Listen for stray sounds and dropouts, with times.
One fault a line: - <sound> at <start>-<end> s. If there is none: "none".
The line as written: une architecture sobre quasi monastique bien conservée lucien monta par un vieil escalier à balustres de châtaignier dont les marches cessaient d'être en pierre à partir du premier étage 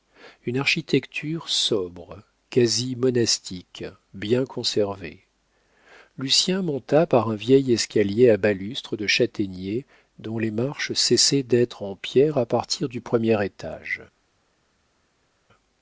none